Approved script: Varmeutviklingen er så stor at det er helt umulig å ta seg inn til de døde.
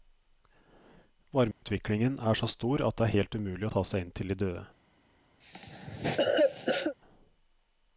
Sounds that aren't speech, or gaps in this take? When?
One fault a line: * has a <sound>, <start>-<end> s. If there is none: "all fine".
* has a dropout, 1.5-1.6 s
* has a cough, 5.4-7.0 s